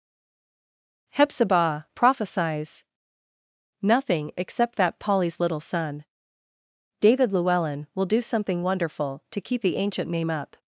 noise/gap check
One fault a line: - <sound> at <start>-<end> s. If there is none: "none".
none